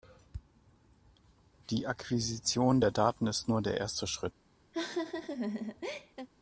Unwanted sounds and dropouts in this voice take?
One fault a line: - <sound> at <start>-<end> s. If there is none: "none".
- laugh at 4.7-6.3 s